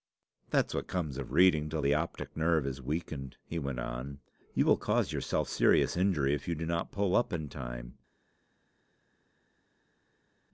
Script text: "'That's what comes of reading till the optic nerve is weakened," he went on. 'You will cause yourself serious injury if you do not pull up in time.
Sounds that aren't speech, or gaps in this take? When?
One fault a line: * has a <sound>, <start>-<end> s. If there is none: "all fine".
all fine